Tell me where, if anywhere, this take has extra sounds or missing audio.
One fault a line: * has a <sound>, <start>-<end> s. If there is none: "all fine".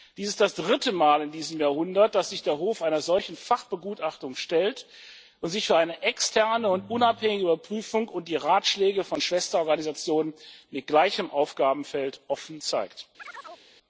* has a chirp, 13.2-13.7 s